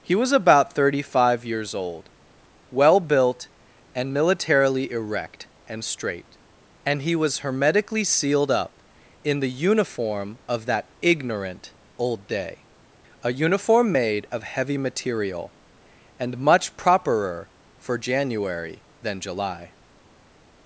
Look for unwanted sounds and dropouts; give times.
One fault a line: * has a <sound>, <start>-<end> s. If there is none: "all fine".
all fine